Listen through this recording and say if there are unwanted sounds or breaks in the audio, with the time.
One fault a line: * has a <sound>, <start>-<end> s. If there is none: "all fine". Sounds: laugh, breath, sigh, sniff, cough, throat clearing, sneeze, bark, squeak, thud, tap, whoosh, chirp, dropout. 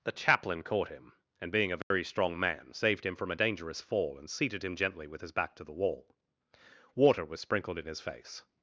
* has a dropout, 1.8-1.9 s